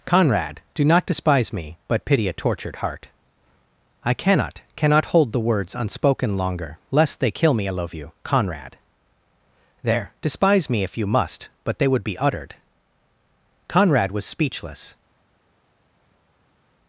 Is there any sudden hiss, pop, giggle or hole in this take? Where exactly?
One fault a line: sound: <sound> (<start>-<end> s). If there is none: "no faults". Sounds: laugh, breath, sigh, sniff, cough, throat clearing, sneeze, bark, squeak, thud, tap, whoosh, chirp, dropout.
no faults